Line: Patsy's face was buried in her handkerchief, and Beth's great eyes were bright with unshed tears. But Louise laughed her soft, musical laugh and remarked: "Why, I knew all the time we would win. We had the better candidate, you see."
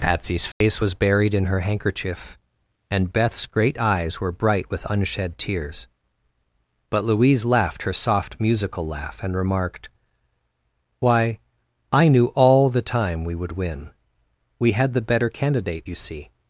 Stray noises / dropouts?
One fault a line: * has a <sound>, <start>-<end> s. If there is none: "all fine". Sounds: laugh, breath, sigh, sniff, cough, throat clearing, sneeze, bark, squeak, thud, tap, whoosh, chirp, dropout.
* has a dropout, 0.5-0.6 s